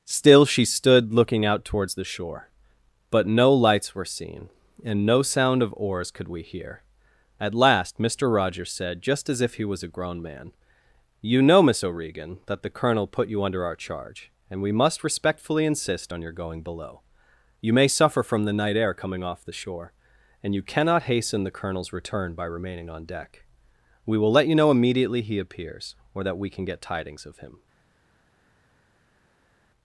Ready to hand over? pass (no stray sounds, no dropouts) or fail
pass